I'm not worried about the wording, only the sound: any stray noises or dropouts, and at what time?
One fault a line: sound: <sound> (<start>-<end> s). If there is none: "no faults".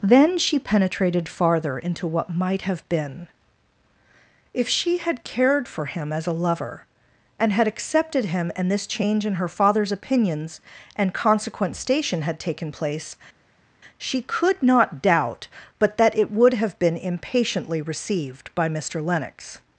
no faults